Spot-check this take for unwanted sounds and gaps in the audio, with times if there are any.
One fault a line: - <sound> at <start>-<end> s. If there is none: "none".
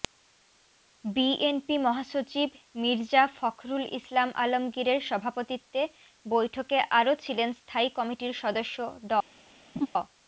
- laugh at 9.8-9.9 s